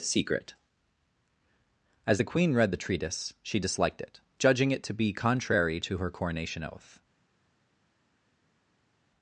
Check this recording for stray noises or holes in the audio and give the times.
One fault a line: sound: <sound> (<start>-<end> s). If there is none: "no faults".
no faults